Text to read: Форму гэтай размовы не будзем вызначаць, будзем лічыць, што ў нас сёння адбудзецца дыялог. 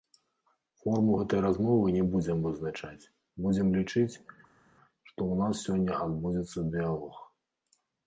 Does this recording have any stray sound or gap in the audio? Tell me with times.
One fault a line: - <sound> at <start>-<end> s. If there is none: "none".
none